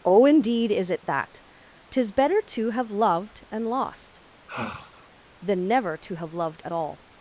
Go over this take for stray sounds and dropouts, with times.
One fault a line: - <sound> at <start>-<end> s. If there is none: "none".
- sigh at 4.5-5.1 s